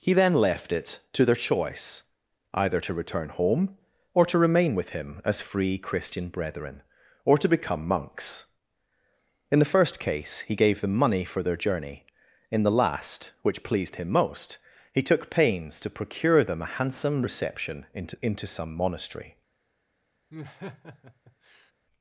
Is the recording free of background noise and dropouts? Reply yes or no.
no